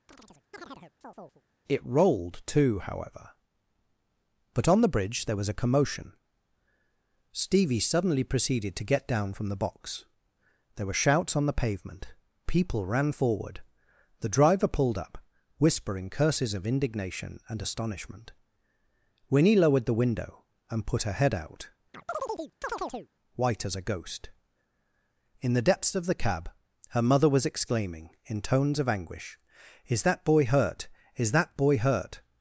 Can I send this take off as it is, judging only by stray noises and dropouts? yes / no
no